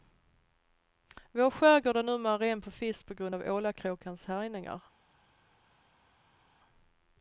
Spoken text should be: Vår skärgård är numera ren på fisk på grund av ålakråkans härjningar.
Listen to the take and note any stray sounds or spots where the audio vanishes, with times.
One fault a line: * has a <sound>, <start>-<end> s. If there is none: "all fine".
all fine